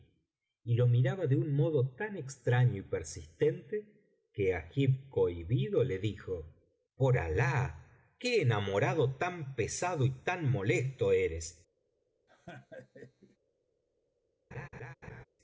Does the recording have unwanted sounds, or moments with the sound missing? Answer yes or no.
yes